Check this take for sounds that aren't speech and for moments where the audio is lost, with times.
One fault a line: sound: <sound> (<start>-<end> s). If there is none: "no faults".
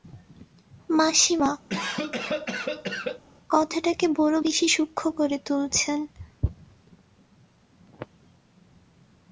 sound: cough (1.7-3.2 s)